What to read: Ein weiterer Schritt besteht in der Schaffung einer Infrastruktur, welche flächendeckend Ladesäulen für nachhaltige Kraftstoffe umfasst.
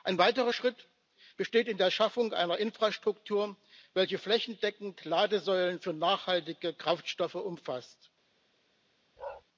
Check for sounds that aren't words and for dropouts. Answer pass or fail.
fail